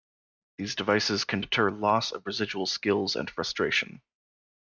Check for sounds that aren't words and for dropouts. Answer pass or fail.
pass